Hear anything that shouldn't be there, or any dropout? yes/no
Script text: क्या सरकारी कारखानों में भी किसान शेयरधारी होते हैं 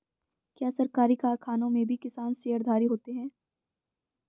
no